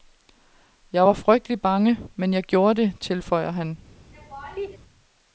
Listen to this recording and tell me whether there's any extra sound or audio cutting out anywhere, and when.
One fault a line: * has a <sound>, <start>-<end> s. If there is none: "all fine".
* has a laugh, 4.1-4.8 s